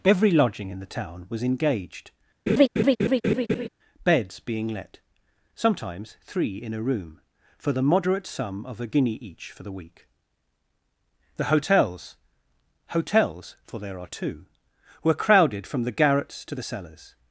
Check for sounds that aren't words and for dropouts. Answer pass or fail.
fail